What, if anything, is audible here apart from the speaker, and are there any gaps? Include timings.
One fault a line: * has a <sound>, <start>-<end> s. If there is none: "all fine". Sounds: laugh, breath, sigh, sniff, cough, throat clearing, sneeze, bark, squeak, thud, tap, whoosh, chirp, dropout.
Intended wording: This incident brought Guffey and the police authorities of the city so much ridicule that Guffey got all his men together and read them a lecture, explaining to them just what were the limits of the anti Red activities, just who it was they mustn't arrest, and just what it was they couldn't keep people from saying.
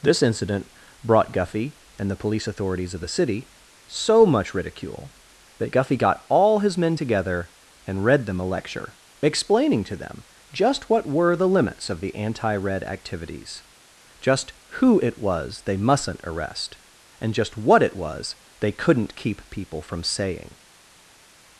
all fine